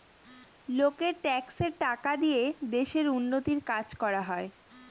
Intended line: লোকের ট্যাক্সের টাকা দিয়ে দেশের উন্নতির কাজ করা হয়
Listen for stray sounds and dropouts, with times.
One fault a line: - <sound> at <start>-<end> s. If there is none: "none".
none